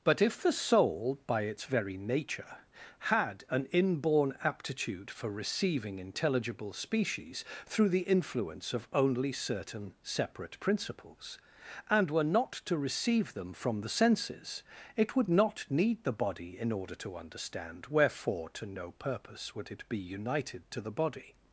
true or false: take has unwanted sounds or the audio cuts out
false